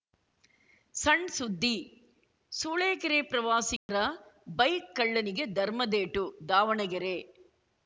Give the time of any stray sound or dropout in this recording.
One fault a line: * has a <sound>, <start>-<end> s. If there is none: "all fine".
* has a dropout, 3.8-3.9 s